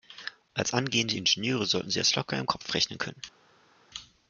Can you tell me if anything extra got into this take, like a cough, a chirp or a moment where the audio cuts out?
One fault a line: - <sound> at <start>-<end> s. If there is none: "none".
none